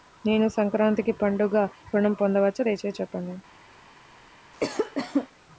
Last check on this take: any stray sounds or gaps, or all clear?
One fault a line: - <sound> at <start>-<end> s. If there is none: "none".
- cough at 4.5-5.3 s